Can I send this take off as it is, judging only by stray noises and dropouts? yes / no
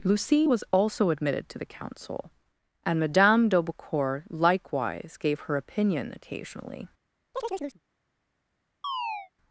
no